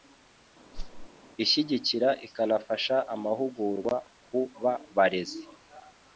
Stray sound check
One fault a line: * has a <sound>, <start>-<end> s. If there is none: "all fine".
* has a whoosh, 0.7-1.1 s